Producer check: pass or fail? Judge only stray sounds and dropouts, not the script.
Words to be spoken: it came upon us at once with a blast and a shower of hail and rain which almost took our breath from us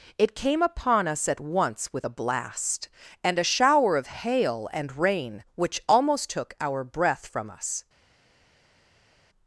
pass